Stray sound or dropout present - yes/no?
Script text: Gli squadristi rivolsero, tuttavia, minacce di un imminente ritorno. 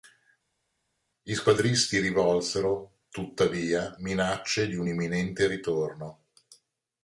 no